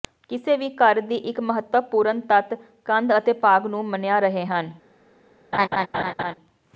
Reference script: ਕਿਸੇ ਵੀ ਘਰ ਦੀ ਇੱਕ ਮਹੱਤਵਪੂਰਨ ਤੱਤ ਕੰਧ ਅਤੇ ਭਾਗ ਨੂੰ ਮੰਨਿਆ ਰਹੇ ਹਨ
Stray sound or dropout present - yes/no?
yes